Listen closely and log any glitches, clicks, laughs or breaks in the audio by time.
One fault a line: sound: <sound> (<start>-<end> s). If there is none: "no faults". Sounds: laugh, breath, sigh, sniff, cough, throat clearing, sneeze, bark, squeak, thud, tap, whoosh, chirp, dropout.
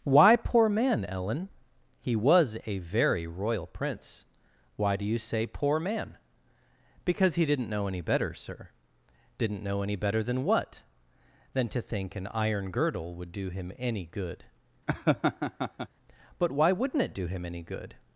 sound: laugh (14.9-15.9 s)